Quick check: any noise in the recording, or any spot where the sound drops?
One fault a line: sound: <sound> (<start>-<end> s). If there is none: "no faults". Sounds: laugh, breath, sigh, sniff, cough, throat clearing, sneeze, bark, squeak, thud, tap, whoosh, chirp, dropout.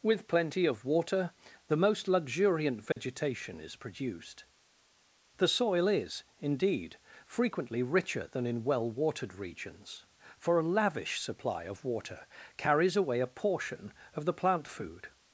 sound: dropout (2.9-3.0 s)